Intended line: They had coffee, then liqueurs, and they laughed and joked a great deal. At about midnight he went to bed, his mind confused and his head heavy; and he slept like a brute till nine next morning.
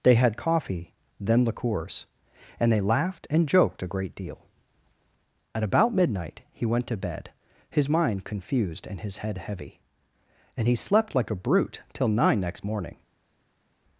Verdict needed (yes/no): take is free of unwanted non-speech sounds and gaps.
yes